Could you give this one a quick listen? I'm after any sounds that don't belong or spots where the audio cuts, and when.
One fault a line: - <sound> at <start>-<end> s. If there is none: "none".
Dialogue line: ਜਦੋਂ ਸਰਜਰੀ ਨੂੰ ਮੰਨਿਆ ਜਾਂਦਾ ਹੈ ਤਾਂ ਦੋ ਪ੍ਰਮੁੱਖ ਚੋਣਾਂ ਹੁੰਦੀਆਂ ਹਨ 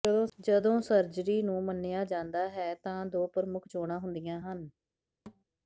- thud at 5.3-5.4 s